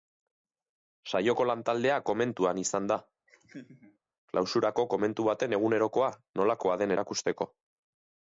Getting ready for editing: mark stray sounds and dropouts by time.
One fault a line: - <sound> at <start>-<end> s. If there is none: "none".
- laugh at 3.3-4.0 s